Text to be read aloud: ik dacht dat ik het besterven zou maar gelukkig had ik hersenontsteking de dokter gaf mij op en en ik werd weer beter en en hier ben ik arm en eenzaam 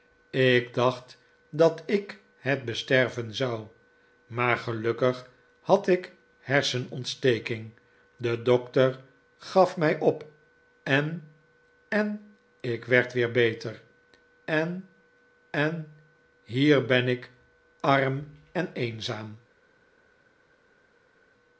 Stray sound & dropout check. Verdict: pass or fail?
pass